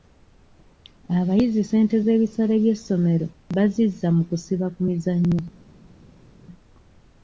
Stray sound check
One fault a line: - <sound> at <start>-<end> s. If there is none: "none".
none